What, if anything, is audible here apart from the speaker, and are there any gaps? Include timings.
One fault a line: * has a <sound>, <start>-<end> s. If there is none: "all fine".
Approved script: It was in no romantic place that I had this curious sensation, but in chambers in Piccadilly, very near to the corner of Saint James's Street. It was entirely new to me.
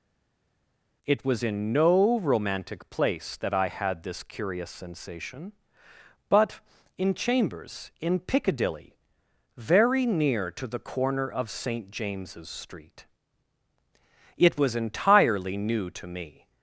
all fine